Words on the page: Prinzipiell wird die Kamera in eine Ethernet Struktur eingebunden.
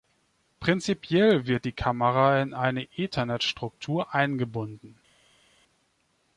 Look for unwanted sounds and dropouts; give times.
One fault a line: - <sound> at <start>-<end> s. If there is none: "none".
none